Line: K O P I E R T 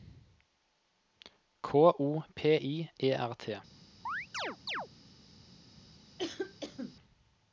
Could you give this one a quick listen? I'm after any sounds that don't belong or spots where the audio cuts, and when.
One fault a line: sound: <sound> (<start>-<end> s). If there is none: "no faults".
sound: chirp (4.1-4.9 s)
sound: cough (6.2-7.0 s)